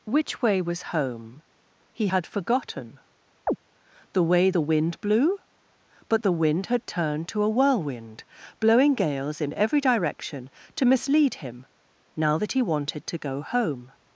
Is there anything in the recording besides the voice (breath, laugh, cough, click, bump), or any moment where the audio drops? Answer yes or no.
yes